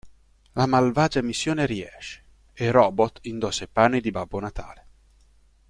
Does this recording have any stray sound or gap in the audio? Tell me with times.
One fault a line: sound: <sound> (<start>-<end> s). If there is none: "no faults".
no faults